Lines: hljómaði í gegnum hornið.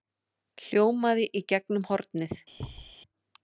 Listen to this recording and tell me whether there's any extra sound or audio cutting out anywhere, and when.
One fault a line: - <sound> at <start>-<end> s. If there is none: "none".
- thud at 2.6-3.0 s